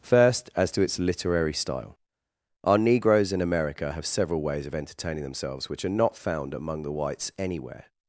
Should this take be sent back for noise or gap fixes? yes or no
no